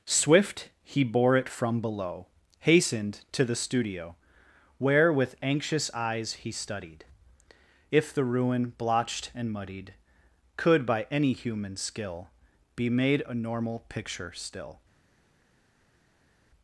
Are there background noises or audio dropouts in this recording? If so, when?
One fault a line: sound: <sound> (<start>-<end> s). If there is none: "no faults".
no faults